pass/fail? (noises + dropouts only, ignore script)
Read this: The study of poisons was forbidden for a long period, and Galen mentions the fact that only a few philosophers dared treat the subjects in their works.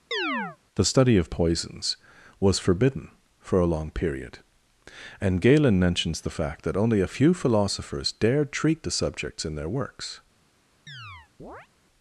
fail